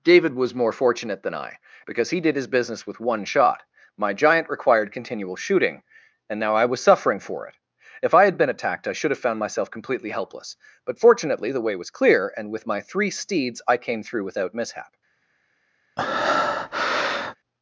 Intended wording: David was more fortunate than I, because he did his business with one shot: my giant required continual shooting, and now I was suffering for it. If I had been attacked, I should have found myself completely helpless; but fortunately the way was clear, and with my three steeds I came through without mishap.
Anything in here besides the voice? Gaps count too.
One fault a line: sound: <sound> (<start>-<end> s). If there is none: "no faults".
sound: breath (16.0-17.4 s)